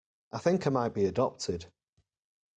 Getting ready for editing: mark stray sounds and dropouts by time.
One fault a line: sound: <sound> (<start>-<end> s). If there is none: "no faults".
no faults